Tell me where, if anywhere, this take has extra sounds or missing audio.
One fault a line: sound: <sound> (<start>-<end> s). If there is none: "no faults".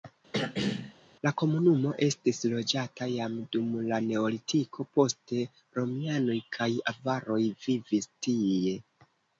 sound: throat clearing (0.3-0.9 s)